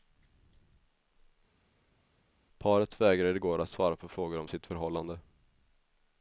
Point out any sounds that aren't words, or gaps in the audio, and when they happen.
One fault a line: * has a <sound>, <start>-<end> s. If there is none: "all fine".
all fine